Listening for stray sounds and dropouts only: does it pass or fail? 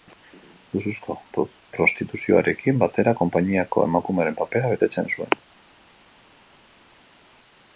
pass